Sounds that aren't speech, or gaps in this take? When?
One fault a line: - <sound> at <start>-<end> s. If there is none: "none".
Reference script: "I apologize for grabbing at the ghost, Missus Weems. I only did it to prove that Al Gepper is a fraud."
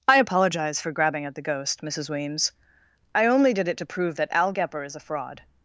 none